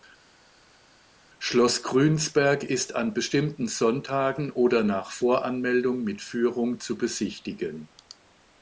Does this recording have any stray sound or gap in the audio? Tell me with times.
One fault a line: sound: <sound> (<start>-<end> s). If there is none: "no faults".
no faults